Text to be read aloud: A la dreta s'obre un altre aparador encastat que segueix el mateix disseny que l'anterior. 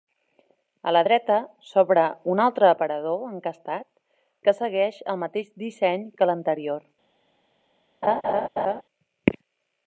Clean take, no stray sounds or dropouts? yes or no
no